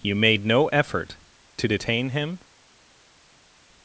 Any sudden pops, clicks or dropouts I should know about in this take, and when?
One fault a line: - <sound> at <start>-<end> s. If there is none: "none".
none